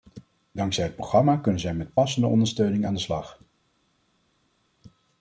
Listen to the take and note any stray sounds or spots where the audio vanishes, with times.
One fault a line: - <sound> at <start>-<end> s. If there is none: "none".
none